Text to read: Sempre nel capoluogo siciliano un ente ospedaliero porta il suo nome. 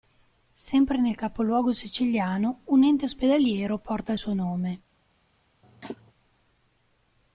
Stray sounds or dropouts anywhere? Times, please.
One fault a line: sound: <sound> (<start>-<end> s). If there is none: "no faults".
sound: cough (5.6-6.1 s)